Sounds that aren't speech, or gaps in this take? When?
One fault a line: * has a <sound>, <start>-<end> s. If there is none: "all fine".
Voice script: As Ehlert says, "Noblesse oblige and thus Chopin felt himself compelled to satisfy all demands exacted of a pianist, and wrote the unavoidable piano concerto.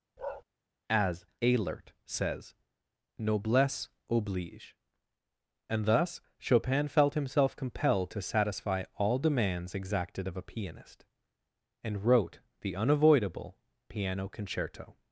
* has a bark, 0.2-0.4 s